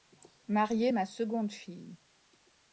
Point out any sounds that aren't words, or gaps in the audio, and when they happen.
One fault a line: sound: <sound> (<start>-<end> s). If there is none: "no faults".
no faults